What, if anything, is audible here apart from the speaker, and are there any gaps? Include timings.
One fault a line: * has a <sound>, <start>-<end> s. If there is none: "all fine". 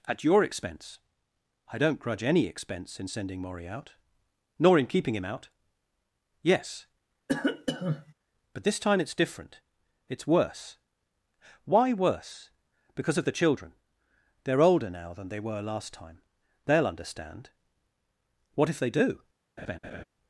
* has a cough, 7.3-8.1 s
* has a laugh, 19.6-20.0 s